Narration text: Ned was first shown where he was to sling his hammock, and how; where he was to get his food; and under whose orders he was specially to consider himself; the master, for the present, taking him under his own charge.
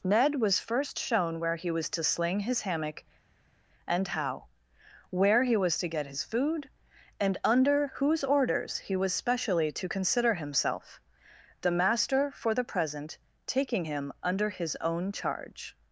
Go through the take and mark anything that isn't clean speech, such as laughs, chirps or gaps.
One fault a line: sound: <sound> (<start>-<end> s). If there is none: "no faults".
no faults